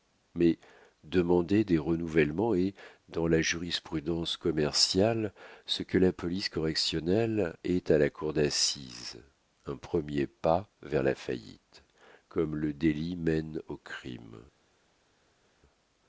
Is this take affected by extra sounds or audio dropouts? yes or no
no